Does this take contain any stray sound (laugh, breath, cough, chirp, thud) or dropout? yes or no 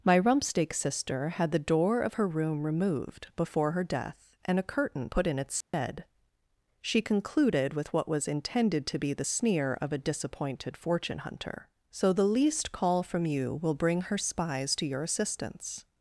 yes